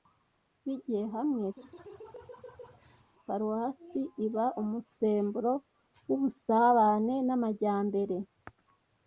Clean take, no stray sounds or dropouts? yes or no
no